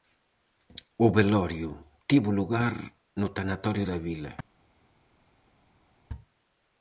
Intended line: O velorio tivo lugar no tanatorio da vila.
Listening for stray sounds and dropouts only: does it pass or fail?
pass